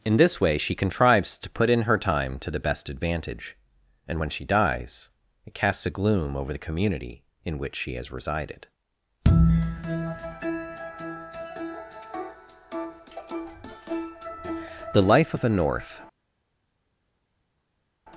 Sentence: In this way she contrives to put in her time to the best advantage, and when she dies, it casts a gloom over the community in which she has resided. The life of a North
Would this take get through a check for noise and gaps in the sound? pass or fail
pass